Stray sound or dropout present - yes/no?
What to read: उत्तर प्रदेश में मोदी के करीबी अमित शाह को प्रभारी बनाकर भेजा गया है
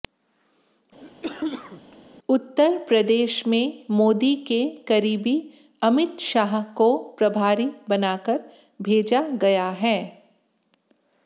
yes